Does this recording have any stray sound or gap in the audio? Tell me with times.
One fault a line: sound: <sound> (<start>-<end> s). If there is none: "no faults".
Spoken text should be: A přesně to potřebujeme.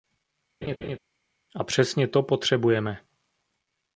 sound: laugh (0.6-1.0 s)